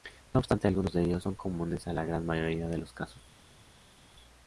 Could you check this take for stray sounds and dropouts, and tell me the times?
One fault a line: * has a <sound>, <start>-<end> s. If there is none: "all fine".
all fine